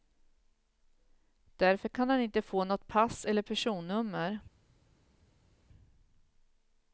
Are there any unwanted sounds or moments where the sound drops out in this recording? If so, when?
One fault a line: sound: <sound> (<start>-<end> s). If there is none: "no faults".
no faults